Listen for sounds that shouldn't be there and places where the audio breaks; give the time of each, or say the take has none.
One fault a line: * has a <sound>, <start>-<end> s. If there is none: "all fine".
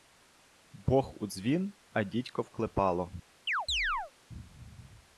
* has a chirp, 3.5-4.1 s